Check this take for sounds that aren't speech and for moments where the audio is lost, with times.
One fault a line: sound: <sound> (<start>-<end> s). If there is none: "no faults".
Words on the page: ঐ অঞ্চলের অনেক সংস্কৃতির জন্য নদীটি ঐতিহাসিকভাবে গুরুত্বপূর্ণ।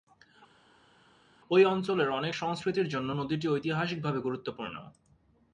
no faults